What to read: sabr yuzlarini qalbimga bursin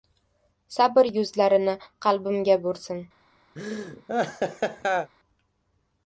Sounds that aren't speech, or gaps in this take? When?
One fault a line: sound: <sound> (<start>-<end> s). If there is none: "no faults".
sound: laugh (3.6-5.1 s)